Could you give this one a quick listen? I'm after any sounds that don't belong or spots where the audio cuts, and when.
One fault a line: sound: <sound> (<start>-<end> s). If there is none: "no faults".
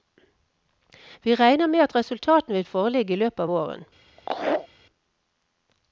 sound: laugh (4.2-4.7 s)